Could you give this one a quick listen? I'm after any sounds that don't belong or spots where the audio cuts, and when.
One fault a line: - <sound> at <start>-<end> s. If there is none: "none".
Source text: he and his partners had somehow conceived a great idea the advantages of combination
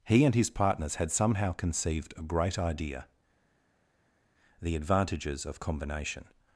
none